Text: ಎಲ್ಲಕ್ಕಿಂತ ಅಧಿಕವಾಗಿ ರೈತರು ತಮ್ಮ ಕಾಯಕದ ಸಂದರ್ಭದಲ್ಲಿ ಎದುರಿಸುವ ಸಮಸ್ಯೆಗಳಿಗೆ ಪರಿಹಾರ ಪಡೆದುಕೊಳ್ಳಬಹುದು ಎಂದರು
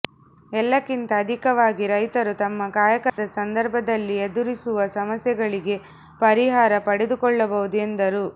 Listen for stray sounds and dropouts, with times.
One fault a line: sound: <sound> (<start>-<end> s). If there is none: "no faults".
sound: dropout (3.1-3.2 s)